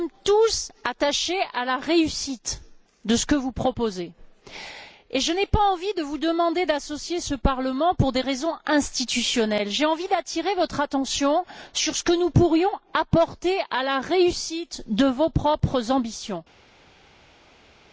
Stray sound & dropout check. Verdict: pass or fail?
pass